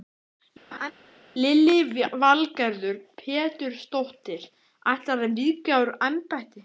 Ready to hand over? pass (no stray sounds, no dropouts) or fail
fail